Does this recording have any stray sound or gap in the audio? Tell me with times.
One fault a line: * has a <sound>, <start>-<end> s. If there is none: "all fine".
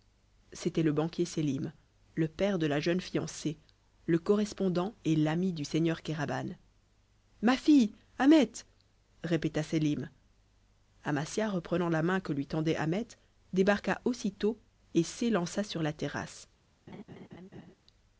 * has a laugh, 16.9-17.7 s